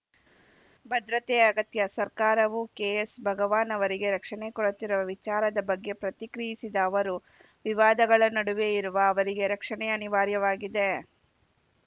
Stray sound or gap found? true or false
false